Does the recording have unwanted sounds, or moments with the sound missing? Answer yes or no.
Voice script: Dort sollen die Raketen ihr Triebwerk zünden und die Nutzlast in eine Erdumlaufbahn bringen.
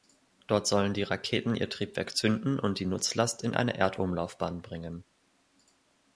no